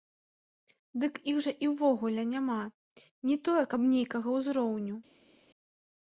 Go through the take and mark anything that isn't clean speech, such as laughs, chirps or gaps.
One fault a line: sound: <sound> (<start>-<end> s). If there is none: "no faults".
no faults